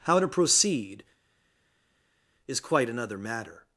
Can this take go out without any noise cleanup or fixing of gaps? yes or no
yes